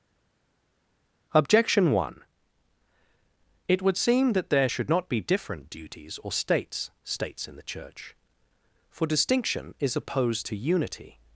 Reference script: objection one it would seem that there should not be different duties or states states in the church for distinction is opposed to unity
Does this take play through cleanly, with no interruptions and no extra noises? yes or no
yes